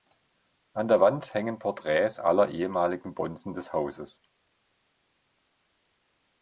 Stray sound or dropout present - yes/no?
no